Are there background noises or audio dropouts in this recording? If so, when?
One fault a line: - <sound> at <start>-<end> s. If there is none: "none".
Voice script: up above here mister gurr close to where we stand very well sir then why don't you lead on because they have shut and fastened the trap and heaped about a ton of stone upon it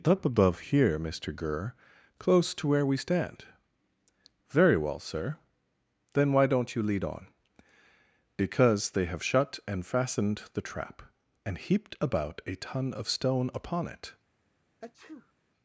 - sneeze at 14.8-15.3 s